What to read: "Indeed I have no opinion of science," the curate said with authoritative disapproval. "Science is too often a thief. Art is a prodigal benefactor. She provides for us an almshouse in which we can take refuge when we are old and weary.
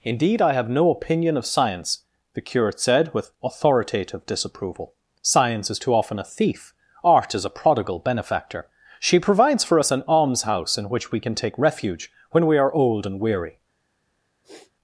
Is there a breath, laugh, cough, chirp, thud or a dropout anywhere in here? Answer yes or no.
yes